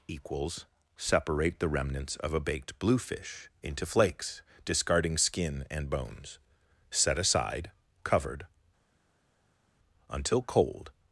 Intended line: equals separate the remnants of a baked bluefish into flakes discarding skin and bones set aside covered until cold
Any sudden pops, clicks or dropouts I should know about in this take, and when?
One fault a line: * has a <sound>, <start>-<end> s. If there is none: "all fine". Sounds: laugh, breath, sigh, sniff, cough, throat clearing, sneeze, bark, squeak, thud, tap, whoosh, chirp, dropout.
all fine